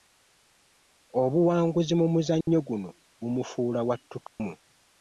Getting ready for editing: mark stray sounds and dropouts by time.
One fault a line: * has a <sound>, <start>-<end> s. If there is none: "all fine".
* has a dropout, 2.4-2.5 s
* has a dropout, 4.3-4.4 s